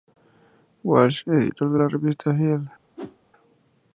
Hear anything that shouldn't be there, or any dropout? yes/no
yes